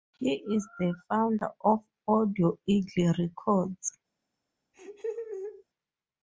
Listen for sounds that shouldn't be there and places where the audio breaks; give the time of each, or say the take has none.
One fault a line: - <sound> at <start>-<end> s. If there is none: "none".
- laugh at 4.7-5.6 s